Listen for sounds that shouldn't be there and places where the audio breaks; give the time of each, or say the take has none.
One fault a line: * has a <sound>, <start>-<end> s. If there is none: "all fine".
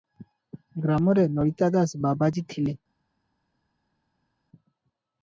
all fine